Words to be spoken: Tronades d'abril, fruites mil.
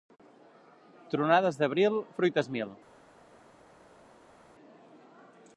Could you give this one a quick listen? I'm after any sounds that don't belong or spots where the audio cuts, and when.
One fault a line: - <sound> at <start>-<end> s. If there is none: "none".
none